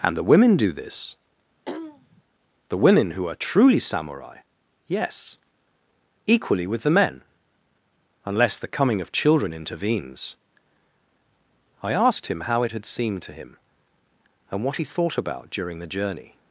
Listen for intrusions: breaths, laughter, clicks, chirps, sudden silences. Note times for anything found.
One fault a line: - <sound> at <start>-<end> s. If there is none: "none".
- throat clearing at 1.7-2.2 s